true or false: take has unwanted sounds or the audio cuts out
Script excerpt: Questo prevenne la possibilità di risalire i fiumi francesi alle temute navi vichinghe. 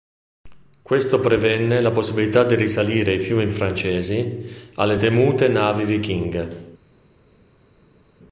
false